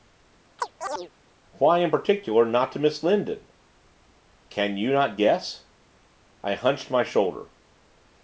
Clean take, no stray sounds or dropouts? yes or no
no